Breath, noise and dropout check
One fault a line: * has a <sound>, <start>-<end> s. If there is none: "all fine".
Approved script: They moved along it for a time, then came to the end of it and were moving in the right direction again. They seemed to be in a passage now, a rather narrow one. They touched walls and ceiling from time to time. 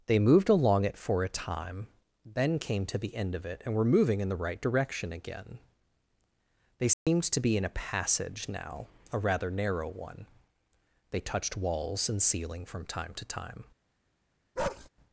* has a dropout, 6.9-7.1 s
* has a bark, 14.6-14.9 s